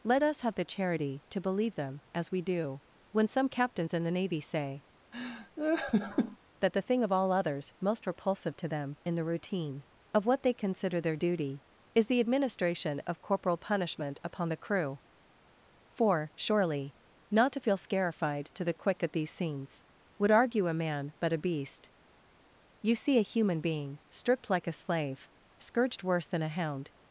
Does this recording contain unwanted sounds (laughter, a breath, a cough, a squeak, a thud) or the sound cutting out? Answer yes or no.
yes